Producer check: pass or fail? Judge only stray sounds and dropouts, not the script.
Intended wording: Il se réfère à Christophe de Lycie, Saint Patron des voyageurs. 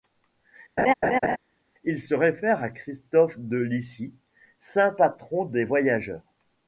fail